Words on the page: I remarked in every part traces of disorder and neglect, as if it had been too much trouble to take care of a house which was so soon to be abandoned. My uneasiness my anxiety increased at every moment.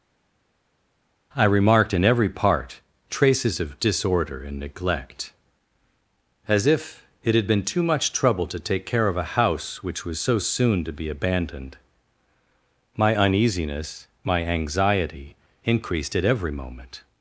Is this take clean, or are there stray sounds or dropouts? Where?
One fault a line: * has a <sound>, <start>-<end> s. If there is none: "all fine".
all fine